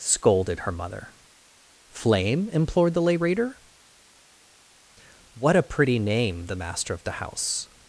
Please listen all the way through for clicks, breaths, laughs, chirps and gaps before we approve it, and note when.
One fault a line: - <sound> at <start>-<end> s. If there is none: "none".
none